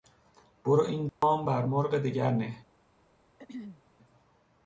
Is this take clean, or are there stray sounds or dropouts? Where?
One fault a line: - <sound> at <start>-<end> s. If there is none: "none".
- dropout at 1.1-1.2 s
- throat clearing at 3.4-3.8 s